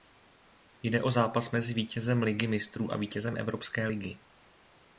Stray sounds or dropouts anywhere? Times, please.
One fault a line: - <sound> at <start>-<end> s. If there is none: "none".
none